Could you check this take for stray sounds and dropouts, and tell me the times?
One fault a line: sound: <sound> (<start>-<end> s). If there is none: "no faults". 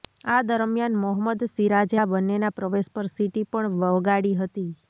no faults